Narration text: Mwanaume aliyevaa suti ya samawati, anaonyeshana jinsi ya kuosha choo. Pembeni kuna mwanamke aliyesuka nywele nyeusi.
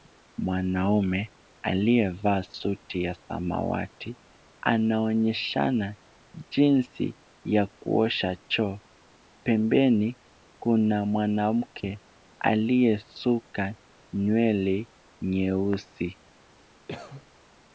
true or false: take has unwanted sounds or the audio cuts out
true